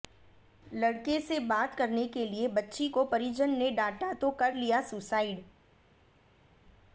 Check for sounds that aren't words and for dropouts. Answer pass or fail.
pass